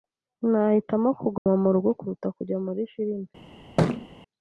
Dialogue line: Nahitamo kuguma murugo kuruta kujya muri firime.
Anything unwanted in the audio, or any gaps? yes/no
yes